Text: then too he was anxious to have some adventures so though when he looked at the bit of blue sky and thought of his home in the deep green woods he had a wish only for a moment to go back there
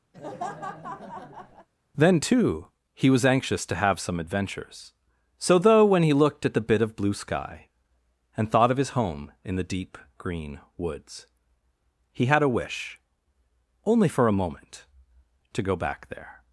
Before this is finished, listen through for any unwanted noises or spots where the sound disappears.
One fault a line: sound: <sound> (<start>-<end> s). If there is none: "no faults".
sound: laugh (0.1-1.7 s)